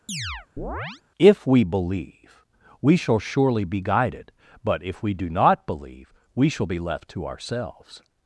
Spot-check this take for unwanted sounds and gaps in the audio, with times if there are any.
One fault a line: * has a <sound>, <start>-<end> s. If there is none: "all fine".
* has a chirp, 0.1-1.0 s